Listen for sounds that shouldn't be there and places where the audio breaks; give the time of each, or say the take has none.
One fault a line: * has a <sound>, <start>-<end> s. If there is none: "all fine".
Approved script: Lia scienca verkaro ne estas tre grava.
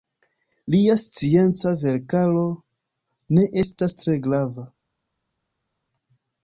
all fine